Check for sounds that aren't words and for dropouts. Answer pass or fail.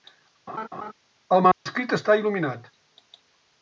fail